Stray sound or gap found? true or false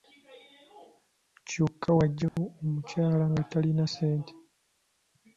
true